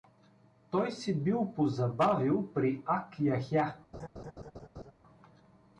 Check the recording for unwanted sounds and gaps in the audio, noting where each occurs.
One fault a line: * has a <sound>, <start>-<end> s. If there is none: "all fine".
* has a laugh, 3.9-4.9 s